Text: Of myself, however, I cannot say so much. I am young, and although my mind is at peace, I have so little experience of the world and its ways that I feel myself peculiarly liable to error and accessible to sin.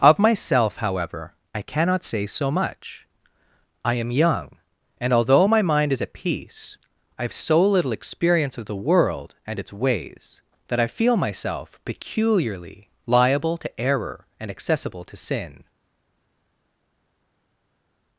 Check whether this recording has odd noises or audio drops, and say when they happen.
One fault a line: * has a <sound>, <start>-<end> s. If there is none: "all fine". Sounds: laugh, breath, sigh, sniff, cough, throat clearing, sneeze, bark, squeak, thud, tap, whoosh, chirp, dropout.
all fine